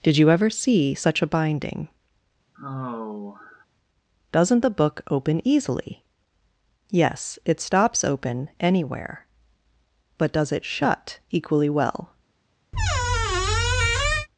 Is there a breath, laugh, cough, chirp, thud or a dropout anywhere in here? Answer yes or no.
yes